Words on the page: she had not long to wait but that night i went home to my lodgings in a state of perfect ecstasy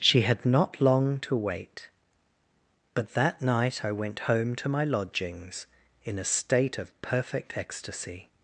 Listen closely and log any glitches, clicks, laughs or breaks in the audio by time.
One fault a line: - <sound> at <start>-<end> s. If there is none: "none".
none